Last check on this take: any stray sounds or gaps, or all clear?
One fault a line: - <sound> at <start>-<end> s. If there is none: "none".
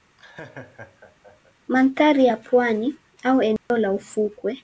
- laugh at 0.2-1.5 s
- dropout at 3.6-3.7 s